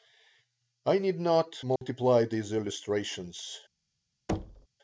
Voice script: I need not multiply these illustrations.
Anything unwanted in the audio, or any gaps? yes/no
yes